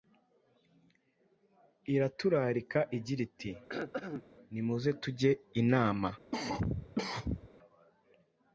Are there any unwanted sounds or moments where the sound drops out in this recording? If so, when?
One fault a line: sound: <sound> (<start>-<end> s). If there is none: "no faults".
sound: throat clearing (3.7-4.2 s)
sound: cough (6.3-7.5 s)